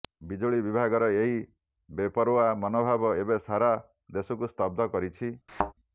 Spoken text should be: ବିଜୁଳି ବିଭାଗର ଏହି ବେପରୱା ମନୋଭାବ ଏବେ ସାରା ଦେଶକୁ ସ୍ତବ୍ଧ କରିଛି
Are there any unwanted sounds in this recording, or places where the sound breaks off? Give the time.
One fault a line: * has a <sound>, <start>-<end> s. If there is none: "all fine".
* has a thud, 5.5-5.7 s